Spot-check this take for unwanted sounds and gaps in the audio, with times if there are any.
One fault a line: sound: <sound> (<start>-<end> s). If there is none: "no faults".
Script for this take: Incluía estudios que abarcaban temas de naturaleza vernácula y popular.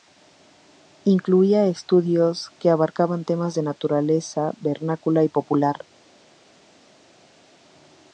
no faults